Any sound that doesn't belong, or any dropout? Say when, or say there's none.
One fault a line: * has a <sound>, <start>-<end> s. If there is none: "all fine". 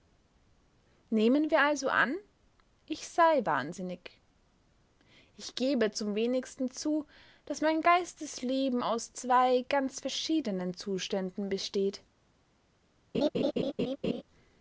* has a laugh, 13.1-14.2 s